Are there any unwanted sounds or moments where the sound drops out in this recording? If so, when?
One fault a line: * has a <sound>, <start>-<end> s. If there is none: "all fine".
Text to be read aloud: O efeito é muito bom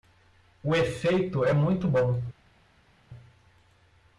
all fine